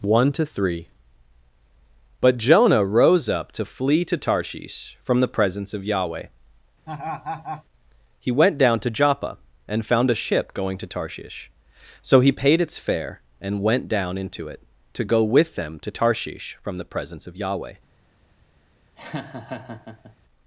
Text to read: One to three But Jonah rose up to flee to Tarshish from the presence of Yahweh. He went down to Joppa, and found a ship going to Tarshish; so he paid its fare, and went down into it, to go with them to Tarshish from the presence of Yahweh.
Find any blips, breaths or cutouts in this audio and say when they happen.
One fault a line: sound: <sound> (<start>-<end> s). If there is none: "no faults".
sound: laugh (6.9-7.6 s)
sound: laugh (19.0-20.2 s)